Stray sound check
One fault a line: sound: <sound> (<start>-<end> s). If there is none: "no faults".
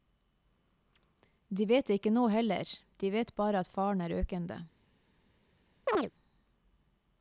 sound: chirp (5.9-6.1 s)